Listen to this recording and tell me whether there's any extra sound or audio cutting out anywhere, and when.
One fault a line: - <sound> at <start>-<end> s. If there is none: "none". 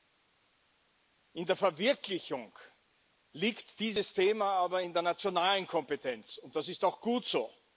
none